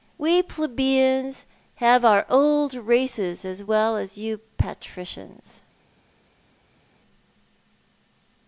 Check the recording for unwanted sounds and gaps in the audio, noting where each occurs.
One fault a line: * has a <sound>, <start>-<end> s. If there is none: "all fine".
all fine